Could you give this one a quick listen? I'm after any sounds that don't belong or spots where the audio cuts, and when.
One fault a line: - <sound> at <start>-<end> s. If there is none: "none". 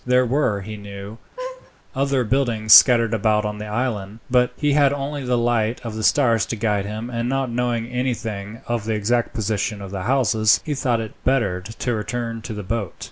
- laugh at 1.4-1.7 s